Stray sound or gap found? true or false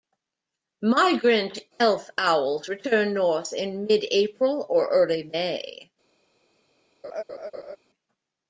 true